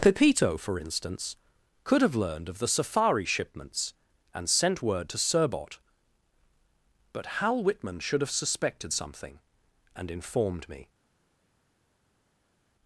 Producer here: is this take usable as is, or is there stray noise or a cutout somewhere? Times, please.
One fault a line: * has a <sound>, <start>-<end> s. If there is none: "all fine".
all fine